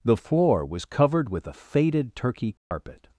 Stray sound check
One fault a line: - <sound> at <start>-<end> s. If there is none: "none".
- dropout at 2.6-2.7 s